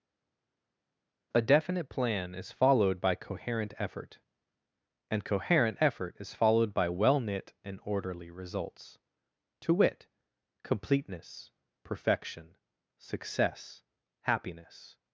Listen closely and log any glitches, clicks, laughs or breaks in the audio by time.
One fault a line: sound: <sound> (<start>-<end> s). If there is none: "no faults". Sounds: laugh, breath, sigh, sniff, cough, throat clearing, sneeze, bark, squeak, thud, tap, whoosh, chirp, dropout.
no faults